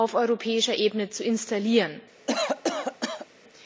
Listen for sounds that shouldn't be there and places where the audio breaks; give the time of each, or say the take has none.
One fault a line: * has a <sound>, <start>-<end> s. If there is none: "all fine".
* has a cough, 2.3-3.3 s